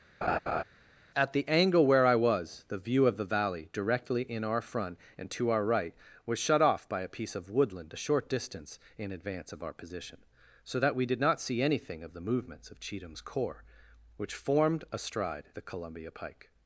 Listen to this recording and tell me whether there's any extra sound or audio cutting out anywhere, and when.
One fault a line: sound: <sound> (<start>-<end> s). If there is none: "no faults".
sound: laugh (0.2-0.6 s)